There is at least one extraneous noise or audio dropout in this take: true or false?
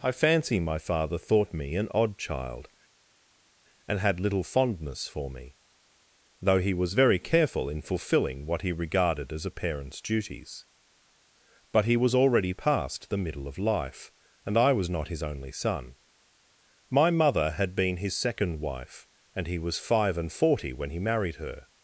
false